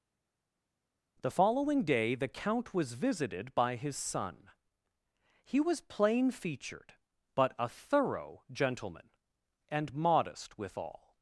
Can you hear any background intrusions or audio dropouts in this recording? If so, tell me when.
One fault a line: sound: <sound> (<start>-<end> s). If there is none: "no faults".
no faults